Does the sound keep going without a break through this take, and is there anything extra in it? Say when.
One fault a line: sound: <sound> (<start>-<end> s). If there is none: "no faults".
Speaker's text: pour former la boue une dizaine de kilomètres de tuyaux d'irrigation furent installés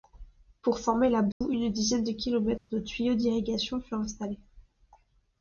sound: dropout (1.3-1.4 s)
sound: dropout (2.6-2.7 s)